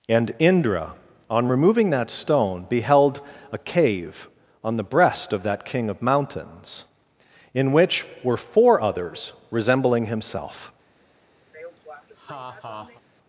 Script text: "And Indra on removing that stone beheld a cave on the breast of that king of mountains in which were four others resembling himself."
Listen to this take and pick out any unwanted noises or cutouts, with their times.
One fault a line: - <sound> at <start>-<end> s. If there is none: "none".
- laugh at 11.5-13.0 s